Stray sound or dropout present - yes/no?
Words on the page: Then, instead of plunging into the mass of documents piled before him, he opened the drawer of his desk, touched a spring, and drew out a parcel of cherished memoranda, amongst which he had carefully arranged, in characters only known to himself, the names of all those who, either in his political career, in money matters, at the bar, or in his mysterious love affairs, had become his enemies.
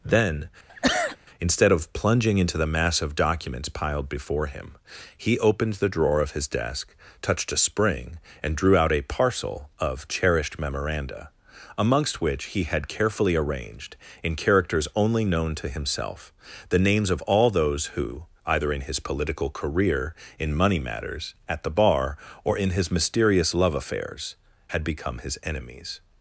yes